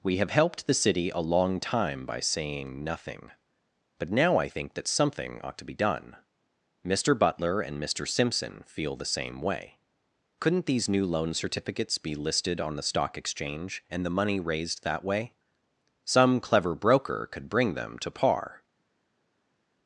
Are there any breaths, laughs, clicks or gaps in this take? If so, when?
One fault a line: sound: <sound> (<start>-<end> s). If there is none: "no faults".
no faults